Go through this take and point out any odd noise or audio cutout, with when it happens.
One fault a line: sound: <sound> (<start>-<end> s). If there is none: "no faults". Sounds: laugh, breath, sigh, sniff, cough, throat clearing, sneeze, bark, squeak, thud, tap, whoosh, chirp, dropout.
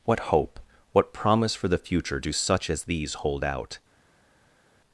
no faults